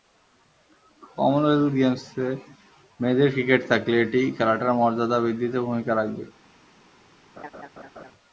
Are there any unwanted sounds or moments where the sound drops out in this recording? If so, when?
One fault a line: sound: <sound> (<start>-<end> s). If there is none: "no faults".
sound: laugh (7.4-8.1 s)